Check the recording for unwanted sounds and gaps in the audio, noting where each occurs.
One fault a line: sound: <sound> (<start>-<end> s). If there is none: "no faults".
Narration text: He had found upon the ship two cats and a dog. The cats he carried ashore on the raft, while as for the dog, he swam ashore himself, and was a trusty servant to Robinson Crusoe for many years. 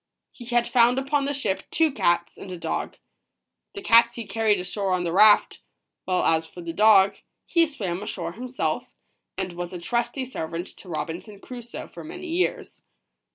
no faults